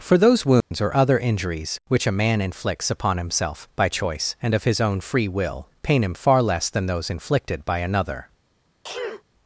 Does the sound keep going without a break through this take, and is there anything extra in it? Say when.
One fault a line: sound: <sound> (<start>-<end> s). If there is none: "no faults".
sound: dropout (0.6-0.7 s)
sound: sneeze (8.8-9.2 s)